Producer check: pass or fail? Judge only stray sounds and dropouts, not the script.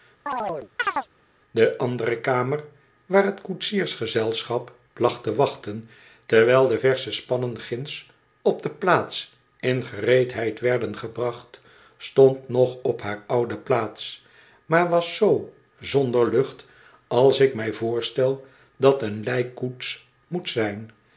fail